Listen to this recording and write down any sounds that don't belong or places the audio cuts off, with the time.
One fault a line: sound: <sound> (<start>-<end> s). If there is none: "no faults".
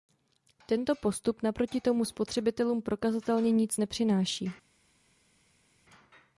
no faults